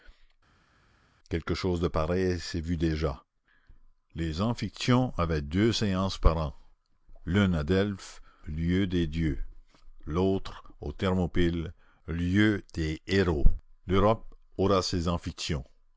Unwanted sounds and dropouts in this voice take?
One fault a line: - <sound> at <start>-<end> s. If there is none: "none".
none